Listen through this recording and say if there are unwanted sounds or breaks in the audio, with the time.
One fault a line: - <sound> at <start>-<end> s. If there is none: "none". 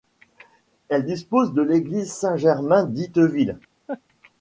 - laugh at 3.9-4.0 s